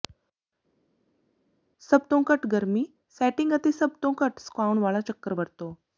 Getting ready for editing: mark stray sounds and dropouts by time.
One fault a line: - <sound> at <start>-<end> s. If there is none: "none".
none